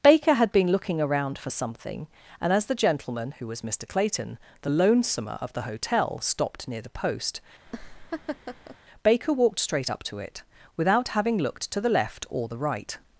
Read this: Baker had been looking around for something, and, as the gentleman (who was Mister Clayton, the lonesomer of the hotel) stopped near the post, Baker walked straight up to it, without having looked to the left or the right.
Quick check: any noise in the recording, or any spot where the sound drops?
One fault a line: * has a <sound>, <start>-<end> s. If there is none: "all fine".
* has a laugh, 7.7-8.8 s